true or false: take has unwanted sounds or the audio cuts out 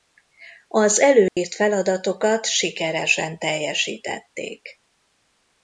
true